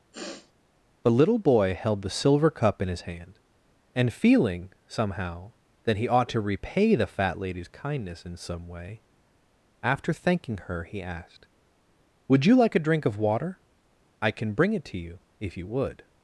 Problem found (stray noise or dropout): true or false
true